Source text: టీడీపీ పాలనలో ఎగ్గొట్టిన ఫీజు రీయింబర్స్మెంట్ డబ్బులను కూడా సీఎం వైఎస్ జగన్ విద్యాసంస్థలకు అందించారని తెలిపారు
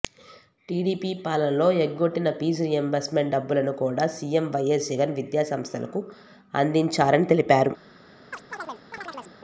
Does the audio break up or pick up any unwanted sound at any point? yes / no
yes